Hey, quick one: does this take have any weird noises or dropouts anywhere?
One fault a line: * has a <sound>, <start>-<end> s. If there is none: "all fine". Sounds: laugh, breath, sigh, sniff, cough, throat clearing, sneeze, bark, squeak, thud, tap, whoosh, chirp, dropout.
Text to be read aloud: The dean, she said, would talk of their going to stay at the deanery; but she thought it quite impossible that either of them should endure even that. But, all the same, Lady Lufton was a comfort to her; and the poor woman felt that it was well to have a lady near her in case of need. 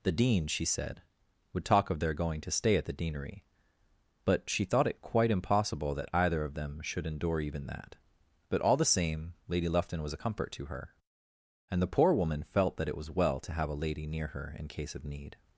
all fine